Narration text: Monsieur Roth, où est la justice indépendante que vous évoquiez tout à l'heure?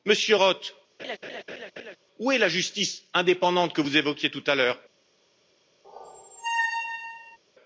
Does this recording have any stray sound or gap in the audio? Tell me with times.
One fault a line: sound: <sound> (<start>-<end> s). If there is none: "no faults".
sound: laugh (1.0-2.0 s)
sound: squeak (5.8-7.4 s)